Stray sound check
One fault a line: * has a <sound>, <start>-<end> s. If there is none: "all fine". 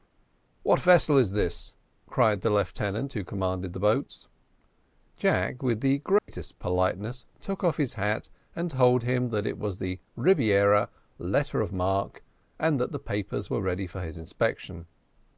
* has a dropout, 6.2-6.3 s